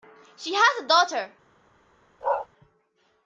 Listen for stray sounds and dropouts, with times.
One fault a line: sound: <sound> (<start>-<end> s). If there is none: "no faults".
sound: bark (2.2-2.5 s)